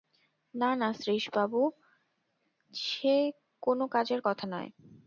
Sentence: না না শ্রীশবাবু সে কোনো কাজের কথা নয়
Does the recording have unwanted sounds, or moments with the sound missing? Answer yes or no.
no